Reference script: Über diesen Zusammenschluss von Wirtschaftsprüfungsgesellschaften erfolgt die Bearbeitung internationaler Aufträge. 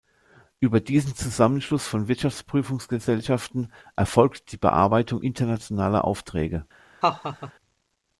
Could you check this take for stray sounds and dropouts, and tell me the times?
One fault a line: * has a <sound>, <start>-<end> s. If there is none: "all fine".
* has a laugh, 7.0-7.5 s